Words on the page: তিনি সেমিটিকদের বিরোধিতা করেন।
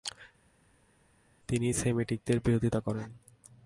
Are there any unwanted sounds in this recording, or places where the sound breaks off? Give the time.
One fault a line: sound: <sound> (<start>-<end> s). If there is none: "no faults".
no faults